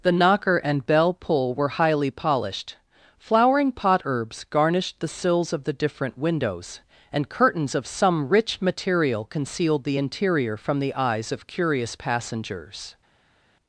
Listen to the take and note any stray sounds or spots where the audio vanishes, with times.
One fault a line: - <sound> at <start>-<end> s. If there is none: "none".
none